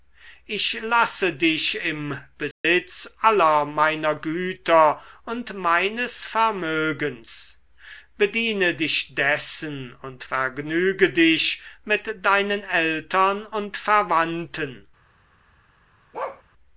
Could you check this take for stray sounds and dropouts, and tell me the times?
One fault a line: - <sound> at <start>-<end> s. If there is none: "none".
- dropout at 2.5-2.6 s
- bark at 16.1-16.4 s